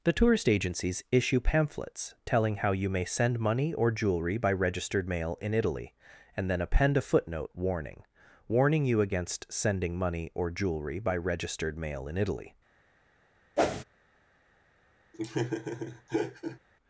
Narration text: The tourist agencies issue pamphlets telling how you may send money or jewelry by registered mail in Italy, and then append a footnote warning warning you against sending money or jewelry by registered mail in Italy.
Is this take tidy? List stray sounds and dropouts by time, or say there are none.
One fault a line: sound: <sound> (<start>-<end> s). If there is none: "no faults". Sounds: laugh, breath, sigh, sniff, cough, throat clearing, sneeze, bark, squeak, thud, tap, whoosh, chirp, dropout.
sound: whoosh (13.6-13.8 s)
sound: laugh (15.1-16.6 s)